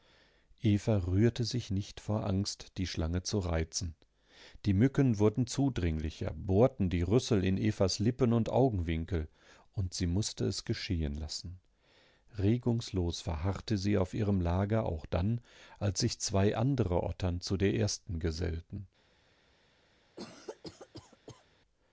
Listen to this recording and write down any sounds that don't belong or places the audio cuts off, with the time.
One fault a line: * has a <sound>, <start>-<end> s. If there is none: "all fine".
* has a cough, 20.2-21.5 s